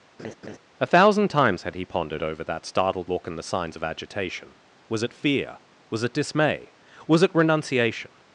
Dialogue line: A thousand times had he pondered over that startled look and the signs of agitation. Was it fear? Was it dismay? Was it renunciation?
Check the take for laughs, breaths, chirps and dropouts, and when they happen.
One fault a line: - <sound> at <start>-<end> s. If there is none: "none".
- laugh at 0.2-0.6 s